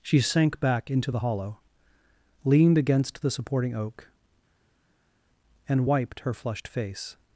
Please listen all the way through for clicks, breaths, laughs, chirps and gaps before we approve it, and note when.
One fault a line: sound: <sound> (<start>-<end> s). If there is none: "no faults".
no faults